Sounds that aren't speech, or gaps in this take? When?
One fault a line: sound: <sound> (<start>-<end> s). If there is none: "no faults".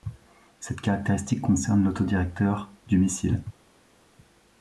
no faults